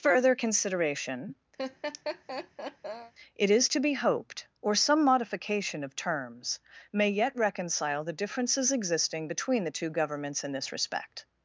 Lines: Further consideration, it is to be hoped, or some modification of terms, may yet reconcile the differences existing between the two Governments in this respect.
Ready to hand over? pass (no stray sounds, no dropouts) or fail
fail